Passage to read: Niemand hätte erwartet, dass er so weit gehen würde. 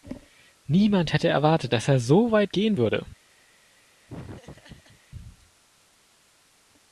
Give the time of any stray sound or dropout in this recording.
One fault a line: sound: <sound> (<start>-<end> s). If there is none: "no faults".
sound: laugh (4.1-5.0 s)